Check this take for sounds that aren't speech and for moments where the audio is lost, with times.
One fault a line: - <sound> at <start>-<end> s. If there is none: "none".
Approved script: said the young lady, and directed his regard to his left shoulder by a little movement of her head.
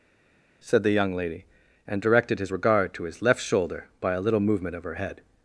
none